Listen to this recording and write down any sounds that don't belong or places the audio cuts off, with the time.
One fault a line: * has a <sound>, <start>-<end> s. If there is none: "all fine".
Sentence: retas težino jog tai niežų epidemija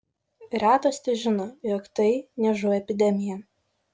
all fine